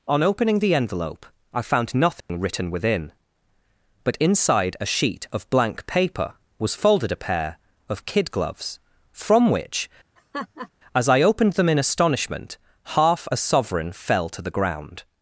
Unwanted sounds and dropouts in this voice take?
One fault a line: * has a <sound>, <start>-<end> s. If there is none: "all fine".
* has a dropout, 2.2-2.3 s
* has a laugh, 10.2-10.7 s